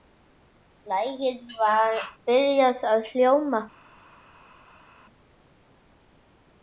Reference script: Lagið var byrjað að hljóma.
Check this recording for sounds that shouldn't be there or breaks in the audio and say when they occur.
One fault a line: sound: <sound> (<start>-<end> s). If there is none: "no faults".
no faults